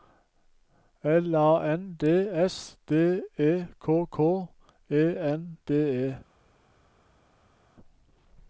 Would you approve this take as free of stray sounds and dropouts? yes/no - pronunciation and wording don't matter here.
yes